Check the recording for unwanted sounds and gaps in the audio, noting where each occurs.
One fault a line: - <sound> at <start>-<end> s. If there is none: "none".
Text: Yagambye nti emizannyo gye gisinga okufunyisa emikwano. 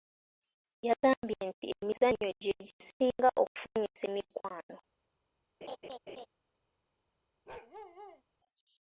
- laugh at 5.6-6.3 s
- bark at 7.5-8.2 s